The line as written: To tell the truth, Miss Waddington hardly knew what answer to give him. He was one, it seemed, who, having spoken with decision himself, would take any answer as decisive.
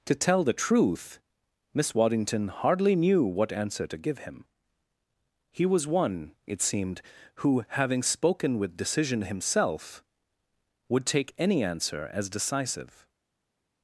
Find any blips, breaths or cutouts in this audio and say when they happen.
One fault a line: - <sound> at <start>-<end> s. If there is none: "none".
none